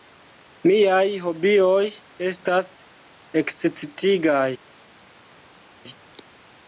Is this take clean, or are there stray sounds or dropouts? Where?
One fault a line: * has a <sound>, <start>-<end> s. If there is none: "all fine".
all fine